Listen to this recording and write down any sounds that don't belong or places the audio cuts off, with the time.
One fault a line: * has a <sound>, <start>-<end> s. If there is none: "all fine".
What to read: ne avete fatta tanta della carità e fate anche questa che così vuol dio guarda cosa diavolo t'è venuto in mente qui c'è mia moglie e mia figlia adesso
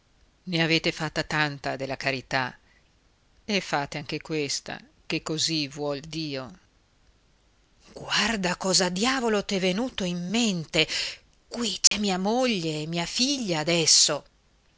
* has a dropout, 11.9-11.9 s